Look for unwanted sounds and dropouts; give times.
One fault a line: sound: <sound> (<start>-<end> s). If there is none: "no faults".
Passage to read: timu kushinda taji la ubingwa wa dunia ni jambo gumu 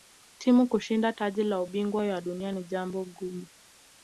no faults